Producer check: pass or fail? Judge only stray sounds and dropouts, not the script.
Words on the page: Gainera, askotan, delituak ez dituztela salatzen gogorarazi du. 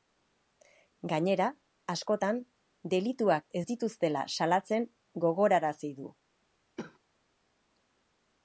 fail